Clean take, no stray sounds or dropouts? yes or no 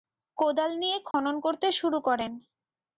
no